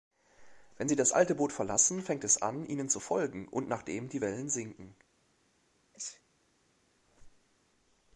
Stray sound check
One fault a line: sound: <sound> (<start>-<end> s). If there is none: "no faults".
sound: sneeze (5.9-6.2 s)
sound: squeak (7.0-7.6 s)